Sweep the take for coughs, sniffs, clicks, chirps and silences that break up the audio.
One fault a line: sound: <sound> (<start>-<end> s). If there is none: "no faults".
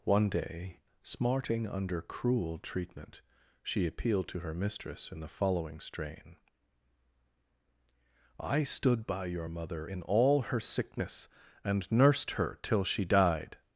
no faults